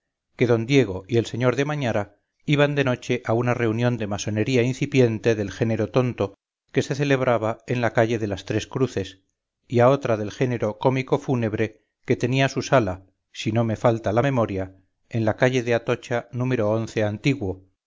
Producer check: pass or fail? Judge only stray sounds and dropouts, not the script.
pass